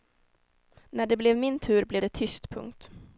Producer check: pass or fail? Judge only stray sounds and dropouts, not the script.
pass